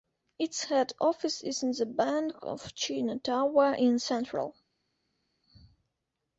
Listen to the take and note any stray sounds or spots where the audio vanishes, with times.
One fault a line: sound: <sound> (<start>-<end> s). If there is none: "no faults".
no faults